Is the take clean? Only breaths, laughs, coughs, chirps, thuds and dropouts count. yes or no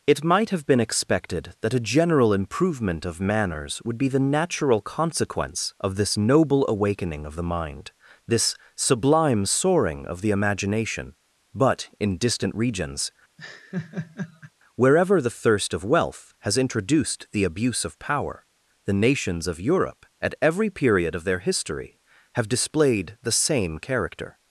no